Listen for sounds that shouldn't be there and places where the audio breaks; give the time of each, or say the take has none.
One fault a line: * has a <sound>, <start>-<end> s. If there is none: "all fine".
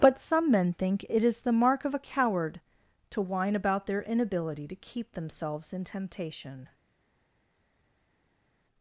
all fine